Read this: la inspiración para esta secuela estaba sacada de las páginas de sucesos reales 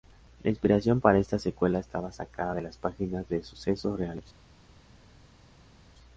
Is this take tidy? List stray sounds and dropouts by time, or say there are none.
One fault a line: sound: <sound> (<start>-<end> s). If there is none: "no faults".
no faults